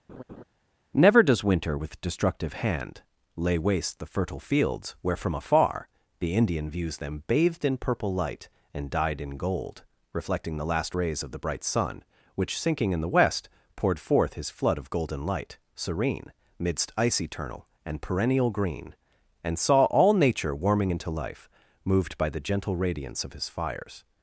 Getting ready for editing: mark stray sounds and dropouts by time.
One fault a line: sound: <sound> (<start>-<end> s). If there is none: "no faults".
sound: laugh (0.1-0.4 s)